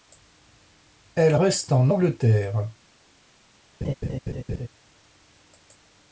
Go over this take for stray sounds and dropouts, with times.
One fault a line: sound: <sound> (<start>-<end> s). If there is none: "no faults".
sound: laugh (3.8-4.7 s)